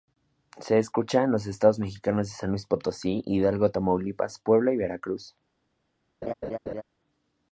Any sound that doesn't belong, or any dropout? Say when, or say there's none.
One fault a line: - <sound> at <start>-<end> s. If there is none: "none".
- laugh at 6.2-6.8 s